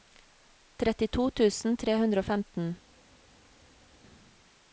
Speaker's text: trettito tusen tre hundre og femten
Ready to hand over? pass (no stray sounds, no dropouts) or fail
pass